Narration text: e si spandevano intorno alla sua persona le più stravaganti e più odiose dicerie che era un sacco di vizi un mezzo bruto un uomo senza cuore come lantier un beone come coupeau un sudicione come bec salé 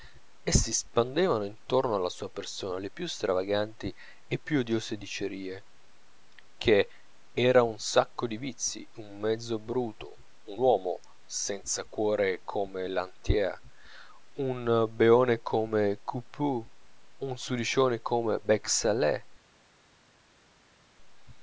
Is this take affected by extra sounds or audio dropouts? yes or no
no